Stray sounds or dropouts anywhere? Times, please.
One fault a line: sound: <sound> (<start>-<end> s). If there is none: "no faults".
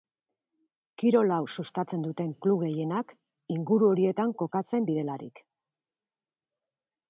no faults